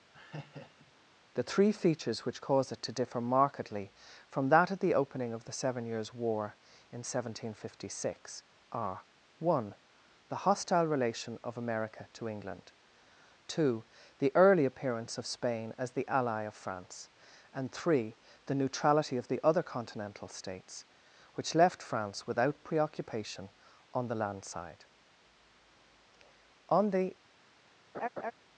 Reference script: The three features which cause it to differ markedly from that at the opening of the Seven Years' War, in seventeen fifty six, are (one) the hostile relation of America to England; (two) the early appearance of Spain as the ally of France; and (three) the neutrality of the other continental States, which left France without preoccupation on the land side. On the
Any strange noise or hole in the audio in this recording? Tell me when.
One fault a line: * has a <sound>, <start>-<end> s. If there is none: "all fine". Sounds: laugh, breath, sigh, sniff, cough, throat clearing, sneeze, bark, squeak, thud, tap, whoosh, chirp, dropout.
* has a laugh, 0.1-0.9 s
* has a laugh, 27.9-28.3 s